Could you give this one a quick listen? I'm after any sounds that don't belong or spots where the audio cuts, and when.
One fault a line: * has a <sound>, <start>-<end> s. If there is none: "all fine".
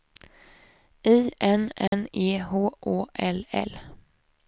* has a dropout, 1.9-1.9 s